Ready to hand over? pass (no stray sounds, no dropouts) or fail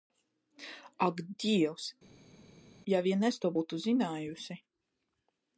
pass